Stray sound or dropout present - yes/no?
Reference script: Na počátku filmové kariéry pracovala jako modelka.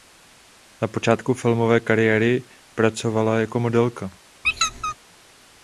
yes